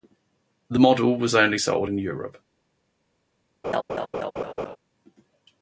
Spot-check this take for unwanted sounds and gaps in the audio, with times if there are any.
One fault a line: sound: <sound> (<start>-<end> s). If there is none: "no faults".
sound: laugh (3.6-4.8 s)